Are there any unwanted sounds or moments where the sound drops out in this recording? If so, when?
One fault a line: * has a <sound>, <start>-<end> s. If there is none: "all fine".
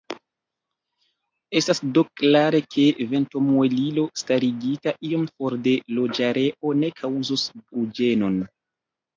all fine